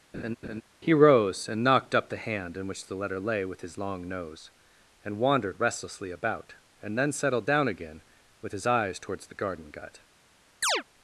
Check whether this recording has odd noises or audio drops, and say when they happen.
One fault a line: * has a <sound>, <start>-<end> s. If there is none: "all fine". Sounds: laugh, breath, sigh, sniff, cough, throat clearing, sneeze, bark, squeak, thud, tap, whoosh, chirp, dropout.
* has a laugh, 0.1-0.6 s
* has a chirp, 10.6-10.8 s